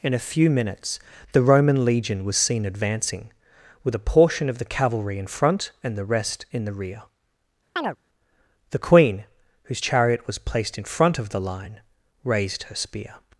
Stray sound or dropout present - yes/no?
yes